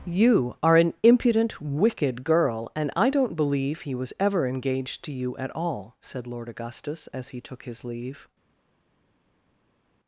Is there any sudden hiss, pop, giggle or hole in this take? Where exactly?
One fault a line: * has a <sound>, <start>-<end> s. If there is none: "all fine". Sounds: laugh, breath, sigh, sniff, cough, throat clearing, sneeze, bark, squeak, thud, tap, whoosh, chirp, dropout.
all fine